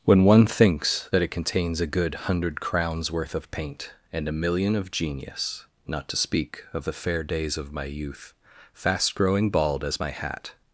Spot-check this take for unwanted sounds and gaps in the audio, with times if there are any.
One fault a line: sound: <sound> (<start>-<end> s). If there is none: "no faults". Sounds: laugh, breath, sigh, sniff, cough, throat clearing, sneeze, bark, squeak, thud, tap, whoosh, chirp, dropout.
no faults